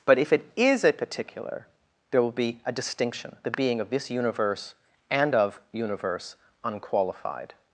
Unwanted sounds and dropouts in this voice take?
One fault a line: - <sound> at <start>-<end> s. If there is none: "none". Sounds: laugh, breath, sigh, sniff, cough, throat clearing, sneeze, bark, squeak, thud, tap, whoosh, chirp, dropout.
none